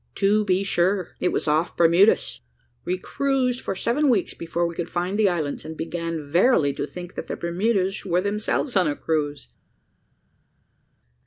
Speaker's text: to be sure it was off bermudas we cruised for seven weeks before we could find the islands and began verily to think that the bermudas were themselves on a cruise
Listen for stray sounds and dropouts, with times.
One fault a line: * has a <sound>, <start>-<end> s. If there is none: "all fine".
all fine